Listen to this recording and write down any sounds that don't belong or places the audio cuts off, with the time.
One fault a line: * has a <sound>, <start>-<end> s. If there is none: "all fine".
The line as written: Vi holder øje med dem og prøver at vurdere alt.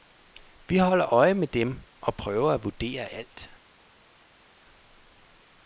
all fine